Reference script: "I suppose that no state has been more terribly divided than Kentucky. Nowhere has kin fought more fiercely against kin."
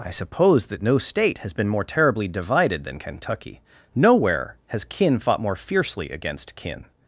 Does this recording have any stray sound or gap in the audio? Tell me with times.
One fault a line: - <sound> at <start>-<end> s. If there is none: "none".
none